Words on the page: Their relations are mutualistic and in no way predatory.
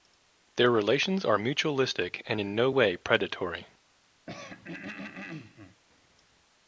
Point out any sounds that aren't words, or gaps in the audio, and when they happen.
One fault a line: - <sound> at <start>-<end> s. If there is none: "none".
- throat clearing at 4.3-5.8 s